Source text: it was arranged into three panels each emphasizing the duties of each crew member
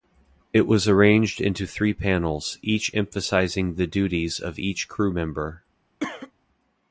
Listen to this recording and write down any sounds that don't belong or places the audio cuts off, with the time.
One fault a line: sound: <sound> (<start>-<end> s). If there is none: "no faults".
sound: cough (6.0-6.3 s)